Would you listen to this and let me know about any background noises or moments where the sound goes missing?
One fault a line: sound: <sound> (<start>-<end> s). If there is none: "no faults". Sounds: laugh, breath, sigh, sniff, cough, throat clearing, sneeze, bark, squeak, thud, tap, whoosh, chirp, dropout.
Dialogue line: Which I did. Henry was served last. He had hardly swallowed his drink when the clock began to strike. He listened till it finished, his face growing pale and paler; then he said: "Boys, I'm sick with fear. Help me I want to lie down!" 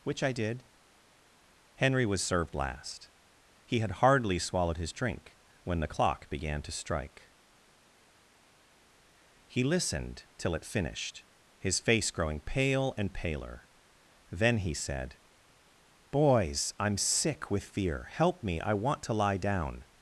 no faults